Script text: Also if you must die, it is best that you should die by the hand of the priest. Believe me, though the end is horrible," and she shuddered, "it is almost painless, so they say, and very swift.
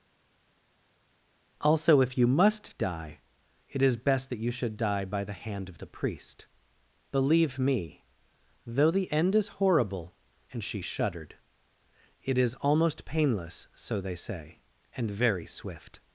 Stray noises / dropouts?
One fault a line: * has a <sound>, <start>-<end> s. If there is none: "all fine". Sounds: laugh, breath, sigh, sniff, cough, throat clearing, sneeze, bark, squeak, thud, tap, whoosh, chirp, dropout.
all fine